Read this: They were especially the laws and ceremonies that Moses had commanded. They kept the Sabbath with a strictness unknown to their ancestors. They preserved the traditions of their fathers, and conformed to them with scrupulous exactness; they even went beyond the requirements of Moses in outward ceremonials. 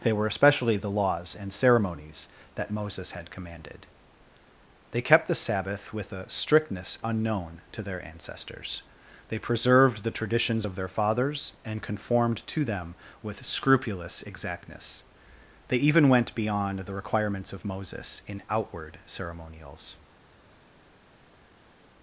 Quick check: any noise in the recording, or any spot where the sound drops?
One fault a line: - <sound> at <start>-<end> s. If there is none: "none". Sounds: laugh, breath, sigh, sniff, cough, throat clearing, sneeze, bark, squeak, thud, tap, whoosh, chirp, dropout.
none